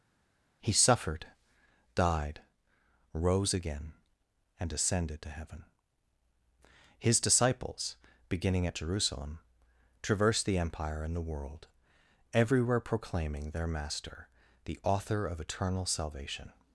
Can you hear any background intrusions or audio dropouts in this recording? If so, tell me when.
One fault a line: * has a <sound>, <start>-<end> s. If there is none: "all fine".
all fine